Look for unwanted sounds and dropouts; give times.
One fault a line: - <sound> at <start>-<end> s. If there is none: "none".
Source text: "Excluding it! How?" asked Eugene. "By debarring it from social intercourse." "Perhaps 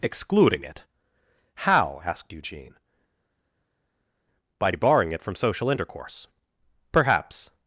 none